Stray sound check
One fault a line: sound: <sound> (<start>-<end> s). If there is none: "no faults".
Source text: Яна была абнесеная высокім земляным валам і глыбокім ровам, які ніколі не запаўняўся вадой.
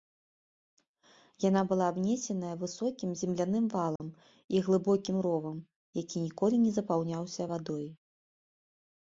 sound: dropout (4.0-4.0 s)